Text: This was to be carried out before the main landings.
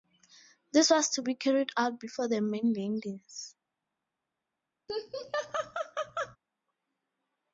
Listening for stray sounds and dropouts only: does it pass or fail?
fail